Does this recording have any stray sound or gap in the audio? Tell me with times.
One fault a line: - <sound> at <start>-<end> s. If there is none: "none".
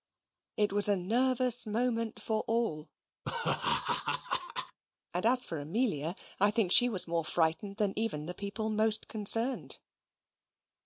- laugh at 3.2-4.8 s